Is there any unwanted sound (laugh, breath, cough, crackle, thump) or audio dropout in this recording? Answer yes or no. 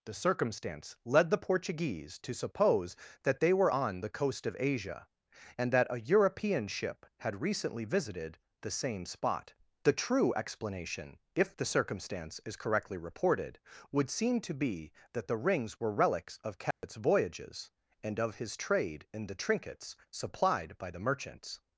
yes